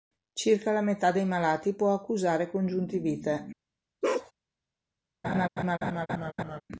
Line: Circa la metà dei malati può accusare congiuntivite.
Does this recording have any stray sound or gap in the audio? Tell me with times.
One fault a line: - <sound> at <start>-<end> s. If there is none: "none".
- bark at 4.0-4.3 s
- laugh at 5.2-6.6 s